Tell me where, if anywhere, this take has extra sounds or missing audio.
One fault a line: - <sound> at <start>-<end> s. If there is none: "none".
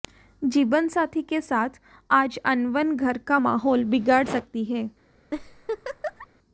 - laugh at 5.3-6.3 s